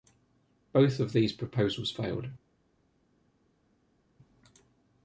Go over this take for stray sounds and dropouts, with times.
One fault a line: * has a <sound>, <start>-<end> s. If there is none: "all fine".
all fine